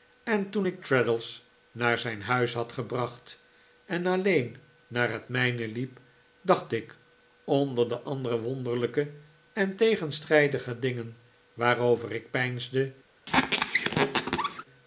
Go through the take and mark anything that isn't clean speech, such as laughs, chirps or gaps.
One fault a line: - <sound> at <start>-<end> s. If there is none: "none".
- squeak at 13.3-14.6 s